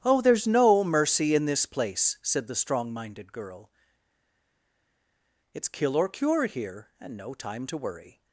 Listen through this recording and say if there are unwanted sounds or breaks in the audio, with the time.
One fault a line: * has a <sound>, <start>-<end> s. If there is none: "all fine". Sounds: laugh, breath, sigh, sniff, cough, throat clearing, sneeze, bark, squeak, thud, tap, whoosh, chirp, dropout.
all fine